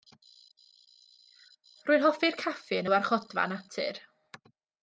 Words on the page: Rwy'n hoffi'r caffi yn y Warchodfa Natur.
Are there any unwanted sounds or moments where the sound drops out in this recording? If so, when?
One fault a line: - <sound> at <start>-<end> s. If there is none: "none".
none